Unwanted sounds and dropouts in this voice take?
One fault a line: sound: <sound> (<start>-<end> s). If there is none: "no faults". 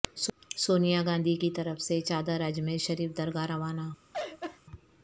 sound: laugh (4.1-4.6 s)